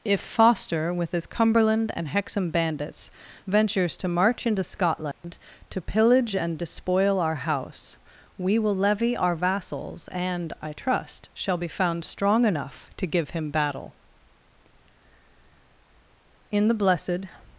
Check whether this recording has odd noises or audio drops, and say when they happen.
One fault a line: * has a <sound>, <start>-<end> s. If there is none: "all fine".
* has a dropout, 5.1-5.2 s